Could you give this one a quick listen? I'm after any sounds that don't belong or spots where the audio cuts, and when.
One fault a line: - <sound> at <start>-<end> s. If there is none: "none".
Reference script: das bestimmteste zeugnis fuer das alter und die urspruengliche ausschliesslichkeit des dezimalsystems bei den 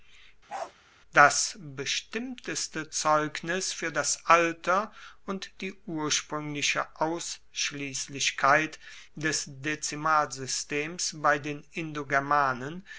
- bark at 0.5-0.7 s